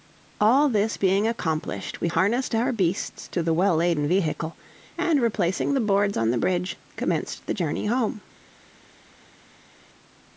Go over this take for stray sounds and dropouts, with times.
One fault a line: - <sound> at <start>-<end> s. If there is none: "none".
none